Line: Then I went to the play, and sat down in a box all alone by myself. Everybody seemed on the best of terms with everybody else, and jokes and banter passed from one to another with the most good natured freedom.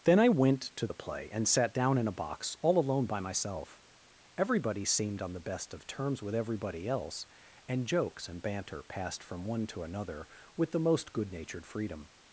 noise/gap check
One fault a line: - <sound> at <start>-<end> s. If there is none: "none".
none